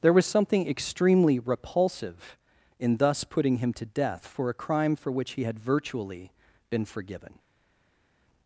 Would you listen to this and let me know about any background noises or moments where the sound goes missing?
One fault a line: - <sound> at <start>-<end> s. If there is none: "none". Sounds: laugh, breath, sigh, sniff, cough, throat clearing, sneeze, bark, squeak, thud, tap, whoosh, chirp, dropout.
none